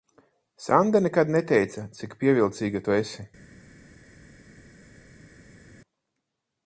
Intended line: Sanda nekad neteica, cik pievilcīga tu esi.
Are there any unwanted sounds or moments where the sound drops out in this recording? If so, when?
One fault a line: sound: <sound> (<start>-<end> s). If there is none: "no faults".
no faults